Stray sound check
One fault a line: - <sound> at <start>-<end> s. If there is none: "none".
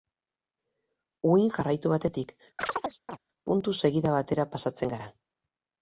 - chirp at 2.6-3.2 s